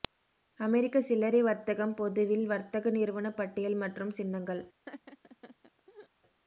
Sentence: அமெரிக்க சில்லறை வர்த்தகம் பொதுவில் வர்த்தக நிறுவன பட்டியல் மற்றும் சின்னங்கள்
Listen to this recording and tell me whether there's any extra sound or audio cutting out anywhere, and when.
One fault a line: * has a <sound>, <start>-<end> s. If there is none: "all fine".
* has a laugh, 4.9-6.1 s